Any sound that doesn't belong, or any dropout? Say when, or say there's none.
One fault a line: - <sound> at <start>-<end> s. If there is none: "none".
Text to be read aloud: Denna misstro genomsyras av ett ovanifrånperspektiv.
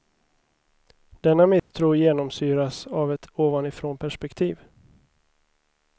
- dropout at 1.6-1.7 s